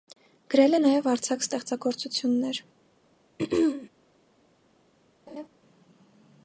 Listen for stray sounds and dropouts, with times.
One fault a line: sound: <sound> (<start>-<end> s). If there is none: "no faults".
sound: throat clearing (3.4-3.9 s)
sound: laugh (5.3-5.5 s)